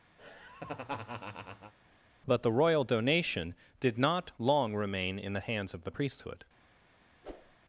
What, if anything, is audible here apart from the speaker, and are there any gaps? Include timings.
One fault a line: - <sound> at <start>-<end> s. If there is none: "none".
- laugh at 0.2-1.7 s
- whoosh at 7.2-7.6 s